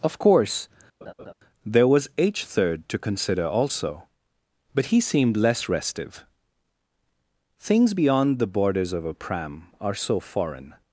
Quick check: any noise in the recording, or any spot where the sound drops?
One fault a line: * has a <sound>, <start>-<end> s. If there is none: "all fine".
* has a laugh, 1.0-1.3 s